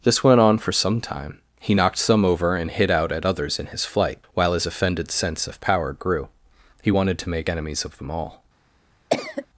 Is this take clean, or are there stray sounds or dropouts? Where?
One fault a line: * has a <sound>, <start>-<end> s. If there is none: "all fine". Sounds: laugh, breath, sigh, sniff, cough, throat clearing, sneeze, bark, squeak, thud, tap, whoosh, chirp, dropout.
* has a cough, 9.1-9.5 s